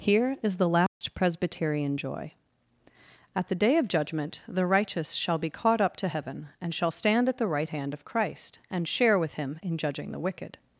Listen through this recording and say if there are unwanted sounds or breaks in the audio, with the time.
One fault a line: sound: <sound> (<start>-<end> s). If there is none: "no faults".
sound: dropout (0.9-1.0 s)